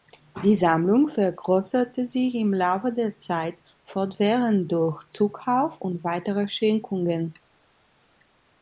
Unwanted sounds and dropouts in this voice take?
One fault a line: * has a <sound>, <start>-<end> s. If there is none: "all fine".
all fine